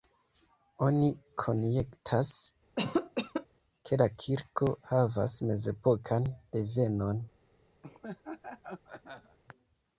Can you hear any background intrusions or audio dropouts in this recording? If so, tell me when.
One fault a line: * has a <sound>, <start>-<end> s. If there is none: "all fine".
* has a cough, 2.8-3.5 s
* has a laugh, 7.8-9.4 s